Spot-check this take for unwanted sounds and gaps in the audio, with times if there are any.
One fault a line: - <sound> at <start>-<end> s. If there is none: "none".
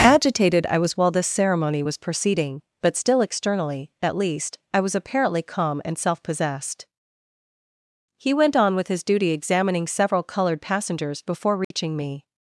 - dropout at 11.6-11.7 s